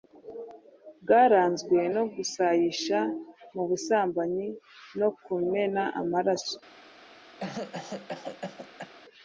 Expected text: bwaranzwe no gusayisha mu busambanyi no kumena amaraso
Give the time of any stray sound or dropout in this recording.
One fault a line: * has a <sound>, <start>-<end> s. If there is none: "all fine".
* has a cough, 7.4-8.9 s